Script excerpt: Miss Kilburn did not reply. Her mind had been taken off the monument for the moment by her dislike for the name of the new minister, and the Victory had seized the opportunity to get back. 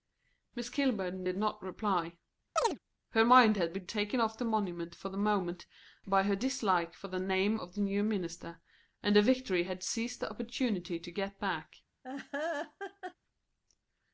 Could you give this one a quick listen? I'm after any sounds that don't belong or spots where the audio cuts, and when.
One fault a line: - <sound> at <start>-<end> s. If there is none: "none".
- chirp at 2.6-2.8 s
- laugh at 12.0-13.1 s